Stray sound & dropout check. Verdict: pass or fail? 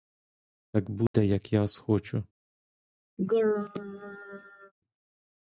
fail